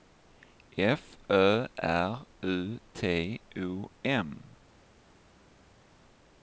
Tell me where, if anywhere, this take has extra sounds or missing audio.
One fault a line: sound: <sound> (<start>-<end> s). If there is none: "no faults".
no faults